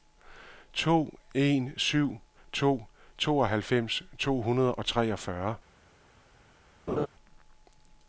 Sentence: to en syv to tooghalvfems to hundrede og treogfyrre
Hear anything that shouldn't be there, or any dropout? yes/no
yes